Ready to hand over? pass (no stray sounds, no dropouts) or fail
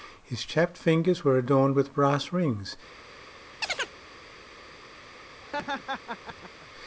fail